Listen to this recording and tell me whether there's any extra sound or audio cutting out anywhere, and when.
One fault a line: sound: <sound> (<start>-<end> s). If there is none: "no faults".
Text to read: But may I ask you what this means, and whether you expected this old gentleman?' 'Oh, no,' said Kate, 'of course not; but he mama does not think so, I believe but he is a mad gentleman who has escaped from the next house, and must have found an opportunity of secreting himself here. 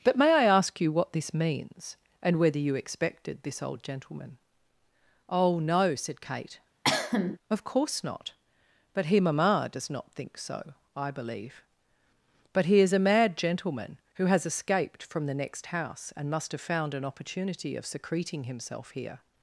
sound: cough (6.8-7.4 s)